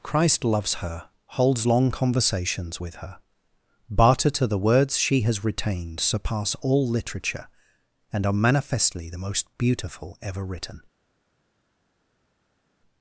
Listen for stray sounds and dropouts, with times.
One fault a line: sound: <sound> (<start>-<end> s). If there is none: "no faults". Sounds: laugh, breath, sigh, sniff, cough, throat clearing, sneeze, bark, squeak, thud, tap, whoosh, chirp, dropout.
no faults